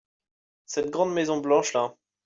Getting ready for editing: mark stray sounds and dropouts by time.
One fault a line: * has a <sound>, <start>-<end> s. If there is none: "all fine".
all fine